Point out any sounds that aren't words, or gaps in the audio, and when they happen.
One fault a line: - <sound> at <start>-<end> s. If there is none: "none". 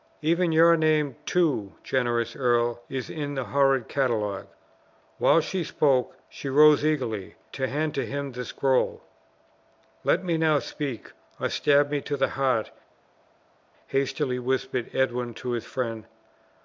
none